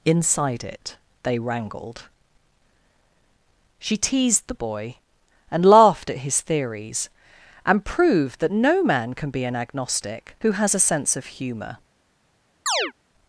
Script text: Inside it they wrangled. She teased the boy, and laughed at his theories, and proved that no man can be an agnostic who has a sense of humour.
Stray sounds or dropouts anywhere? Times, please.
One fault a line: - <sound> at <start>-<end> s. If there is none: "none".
- chirp at 12.7-12.9 s